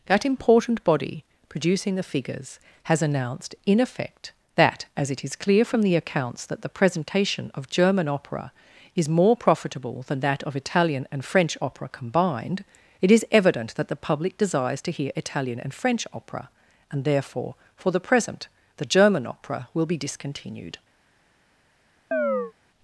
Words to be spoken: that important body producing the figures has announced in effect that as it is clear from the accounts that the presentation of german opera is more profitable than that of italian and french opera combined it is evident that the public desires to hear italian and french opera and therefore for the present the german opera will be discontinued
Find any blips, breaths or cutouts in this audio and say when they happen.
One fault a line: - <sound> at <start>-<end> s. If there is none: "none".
- chirp at 22.1-22.5 s